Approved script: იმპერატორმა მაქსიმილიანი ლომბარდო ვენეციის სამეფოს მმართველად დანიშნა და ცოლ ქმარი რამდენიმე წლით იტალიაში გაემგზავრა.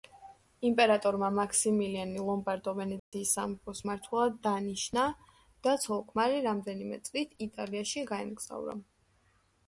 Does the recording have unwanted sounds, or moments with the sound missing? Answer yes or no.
yes